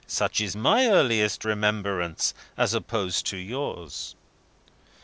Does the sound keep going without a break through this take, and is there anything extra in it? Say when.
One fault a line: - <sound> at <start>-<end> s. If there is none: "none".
none